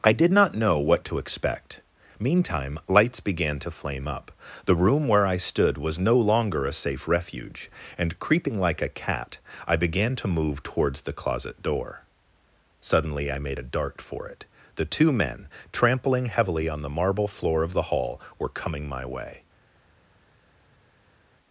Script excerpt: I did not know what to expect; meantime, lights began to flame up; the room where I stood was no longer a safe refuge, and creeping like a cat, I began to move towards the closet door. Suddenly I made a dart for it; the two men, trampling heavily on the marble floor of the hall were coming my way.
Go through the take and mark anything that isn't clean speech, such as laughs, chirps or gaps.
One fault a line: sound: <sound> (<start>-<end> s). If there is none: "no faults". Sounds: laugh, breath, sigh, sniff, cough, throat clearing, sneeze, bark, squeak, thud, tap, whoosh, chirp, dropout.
no faults